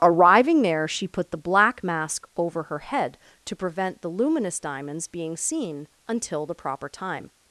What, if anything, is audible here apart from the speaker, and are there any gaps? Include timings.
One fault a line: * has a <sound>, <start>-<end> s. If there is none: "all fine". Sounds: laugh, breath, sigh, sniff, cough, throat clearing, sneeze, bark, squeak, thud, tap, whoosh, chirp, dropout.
all fine